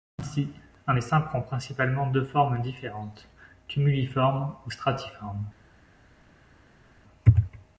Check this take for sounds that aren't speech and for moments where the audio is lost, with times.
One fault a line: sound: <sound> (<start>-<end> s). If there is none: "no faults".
no faults